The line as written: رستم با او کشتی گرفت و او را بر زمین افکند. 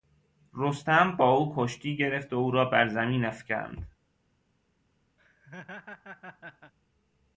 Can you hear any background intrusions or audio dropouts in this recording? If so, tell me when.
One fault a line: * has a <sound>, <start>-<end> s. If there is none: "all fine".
* has a laugh, 5.2-6.7 s